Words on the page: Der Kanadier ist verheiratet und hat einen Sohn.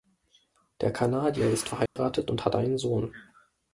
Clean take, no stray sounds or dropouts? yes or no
no